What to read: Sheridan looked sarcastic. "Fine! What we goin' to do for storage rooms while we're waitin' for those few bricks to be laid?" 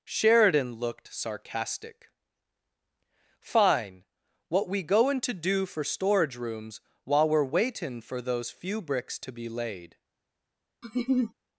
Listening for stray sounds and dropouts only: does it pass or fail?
fail